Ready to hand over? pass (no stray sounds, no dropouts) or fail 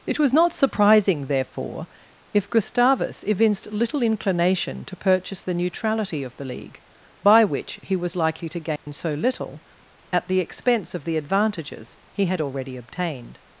fail